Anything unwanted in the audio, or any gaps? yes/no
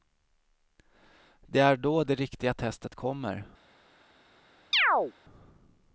yes